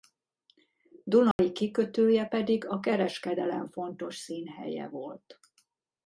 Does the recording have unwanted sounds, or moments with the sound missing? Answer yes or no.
yes